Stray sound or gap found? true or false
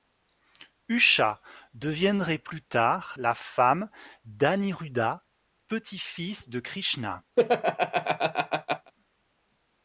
true